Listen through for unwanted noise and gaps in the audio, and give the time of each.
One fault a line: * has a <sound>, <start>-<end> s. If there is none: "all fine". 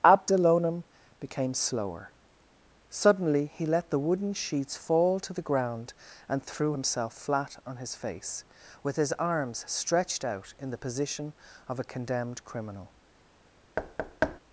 * has a thud, 13.8-14.4 s